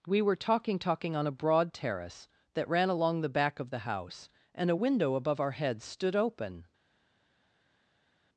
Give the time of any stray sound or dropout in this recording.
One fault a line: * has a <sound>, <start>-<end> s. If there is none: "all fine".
all fine